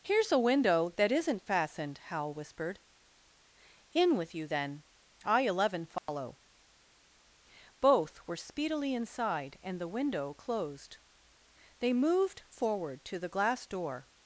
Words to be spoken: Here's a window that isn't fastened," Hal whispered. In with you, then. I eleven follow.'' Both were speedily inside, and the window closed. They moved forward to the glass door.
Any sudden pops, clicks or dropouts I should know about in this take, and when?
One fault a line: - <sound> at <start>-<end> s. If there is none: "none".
- dropout at 6.0-6.1 s